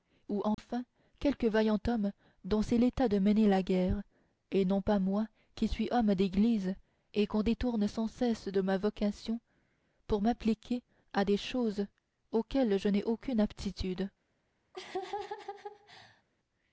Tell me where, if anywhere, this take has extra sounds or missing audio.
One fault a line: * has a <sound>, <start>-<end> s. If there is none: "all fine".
* has a dropout, 0.5-0.6 s
* has a laugh, 14.7-16.2 s